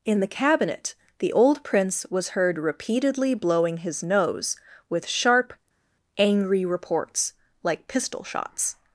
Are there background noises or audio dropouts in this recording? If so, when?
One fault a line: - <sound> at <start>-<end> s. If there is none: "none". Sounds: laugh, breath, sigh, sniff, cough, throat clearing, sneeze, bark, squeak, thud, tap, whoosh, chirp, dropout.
none